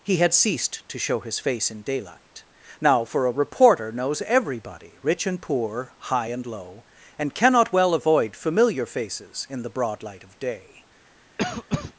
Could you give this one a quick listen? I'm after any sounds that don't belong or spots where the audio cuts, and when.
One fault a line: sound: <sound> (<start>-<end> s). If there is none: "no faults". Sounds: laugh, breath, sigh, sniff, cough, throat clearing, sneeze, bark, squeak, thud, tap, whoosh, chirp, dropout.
sound: cough (11.4-11.9 s)